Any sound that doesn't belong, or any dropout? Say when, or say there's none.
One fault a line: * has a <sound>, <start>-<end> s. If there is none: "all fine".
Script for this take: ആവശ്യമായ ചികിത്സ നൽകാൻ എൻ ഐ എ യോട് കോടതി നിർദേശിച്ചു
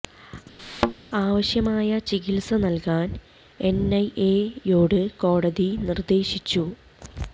* has a thud, 0.6-0.9 s